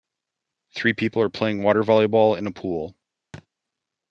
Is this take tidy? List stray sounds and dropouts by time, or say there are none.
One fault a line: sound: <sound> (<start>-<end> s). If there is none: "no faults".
sound: thud (3.3-3.5 s)